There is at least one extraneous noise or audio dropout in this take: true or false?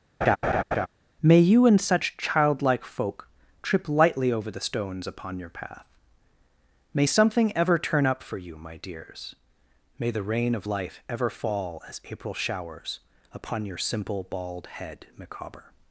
true